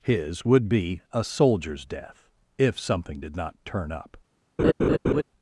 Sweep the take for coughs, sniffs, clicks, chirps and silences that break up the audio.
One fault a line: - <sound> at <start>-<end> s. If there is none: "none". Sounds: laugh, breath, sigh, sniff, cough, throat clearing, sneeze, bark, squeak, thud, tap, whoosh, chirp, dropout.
- laugh at 4.6-5.2 s